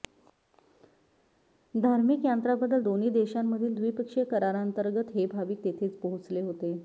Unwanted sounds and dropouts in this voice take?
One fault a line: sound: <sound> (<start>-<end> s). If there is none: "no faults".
no faults